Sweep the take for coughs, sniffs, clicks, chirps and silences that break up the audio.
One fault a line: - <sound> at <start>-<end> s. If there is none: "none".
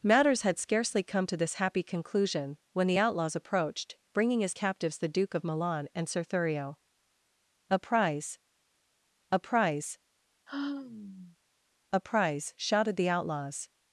- sigh at 10.5-11.4 s